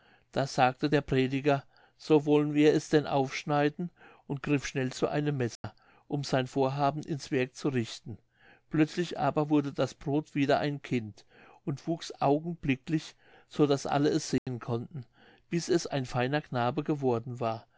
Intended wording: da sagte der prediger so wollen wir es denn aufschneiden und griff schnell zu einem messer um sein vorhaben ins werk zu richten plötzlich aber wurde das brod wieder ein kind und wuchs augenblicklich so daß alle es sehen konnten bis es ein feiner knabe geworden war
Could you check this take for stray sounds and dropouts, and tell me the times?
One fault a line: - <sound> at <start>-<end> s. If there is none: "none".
- dropout at 5.6-5.6 s
- dropout at 14.4-14.5 s